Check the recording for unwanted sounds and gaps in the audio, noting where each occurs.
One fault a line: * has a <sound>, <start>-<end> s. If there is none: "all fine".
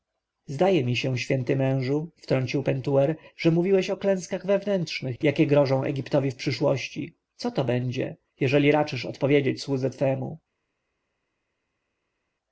all fine